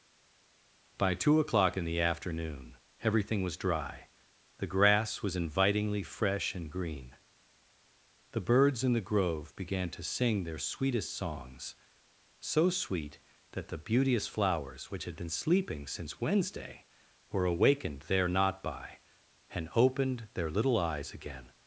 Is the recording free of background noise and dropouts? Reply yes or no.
yes